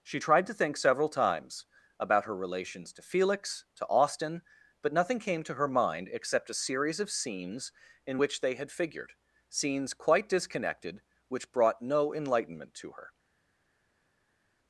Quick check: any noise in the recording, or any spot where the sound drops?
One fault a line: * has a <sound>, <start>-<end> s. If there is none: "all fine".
all fine